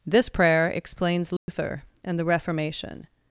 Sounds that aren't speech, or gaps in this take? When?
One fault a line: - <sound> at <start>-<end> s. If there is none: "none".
- dropout at 1.4-1.5 s